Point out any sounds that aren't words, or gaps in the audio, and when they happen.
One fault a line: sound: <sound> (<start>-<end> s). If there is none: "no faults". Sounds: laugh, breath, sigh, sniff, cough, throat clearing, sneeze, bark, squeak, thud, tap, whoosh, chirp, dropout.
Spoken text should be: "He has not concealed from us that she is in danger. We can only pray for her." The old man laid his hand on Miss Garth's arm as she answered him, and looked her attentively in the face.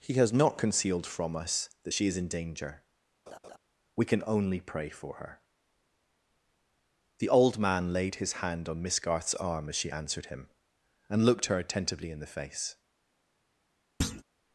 sound: laugh (3.3-3.6 s)
sound: thud (14.0-14.2 s)